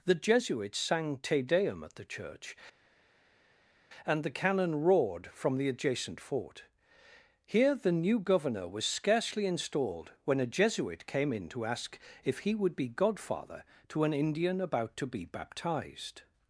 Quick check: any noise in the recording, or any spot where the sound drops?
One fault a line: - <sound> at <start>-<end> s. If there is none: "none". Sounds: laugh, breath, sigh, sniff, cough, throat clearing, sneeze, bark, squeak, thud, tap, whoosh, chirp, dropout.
none